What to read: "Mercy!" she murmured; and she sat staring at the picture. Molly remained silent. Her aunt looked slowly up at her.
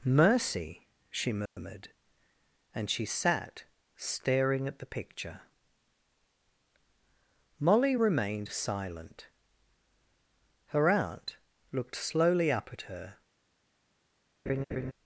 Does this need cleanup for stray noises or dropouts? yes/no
yes